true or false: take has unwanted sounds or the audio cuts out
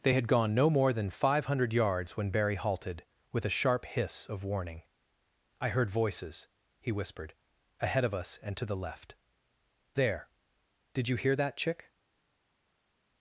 false